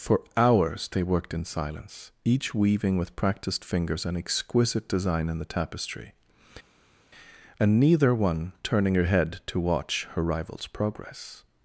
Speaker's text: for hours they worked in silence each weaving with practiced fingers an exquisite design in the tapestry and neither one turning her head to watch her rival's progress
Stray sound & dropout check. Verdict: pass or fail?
pass